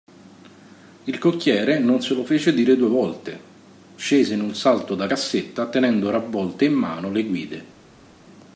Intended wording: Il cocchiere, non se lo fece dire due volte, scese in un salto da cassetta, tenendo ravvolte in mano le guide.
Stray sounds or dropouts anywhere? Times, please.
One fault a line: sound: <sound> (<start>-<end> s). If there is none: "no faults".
no faults